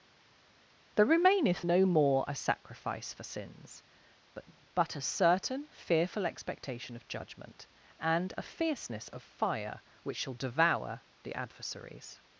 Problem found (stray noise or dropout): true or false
false